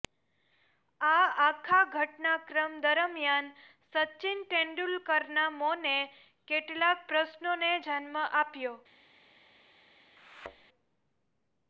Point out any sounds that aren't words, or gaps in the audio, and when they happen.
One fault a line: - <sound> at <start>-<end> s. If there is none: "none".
- thud at 10.2-10.7 s